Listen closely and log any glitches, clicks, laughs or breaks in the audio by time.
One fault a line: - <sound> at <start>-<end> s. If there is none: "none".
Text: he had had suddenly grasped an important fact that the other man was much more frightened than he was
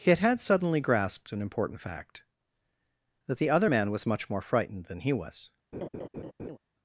- laugh at 5.7-6.6 s